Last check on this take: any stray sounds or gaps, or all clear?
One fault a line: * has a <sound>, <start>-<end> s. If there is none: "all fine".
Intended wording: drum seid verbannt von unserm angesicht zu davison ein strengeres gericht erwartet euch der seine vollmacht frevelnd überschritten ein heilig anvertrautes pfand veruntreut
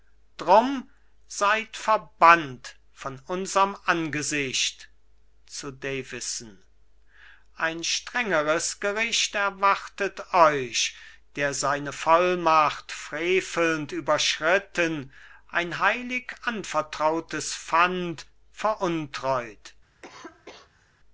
* has a cough, 20.0-20.9 s